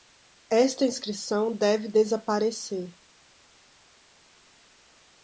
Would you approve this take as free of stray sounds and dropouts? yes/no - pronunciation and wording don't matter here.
yes